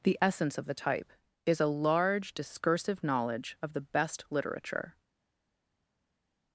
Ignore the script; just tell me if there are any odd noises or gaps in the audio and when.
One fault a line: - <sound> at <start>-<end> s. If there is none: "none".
none